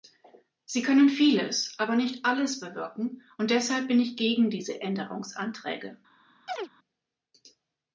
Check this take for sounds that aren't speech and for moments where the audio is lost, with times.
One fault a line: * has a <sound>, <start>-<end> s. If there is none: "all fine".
* has a chirp, 6.5-6.7 s